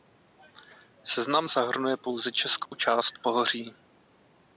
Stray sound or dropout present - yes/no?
yes